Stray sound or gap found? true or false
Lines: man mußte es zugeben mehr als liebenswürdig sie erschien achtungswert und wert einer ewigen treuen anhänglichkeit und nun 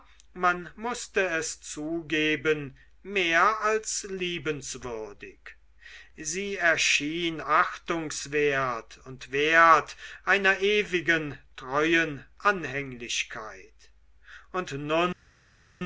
false